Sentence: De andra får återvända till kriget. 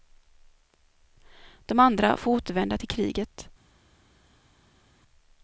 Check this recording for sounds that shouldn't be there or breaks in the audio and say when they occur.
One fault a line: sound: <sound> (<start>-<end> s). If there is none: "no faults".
no faults